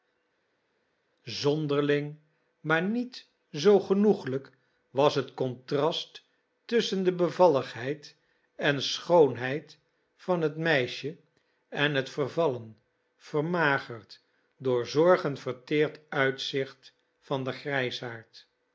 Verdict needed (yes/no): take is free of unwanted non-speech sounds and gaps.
yes